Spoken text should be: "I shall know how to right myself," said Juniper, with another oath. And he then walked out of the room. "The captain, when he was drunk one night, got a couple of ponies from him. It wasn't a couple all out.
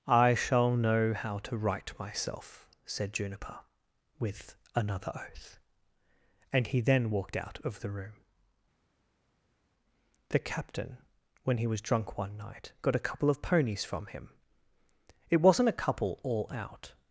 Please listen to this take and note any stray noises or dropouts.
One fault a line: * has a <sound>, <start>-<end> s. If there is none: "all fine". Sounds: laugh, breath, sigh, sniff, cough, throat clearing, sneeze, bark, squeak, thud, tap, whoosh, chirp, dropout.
all fine